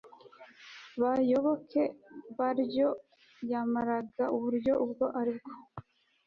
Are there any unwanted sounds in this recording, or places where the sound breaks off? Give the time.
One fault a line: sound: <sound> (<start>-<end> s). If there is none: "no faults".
no faults